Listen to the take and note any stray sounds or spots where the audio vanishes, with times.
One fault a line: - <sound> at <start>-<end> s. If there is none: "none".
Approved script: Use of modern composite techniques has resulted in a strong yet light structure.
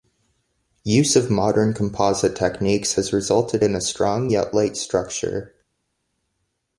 none